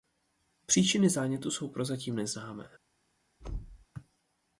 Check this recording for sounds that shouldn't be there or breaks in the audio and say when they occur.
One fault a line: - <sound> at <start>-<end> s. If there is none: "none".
- thud at 3.4-3.9 s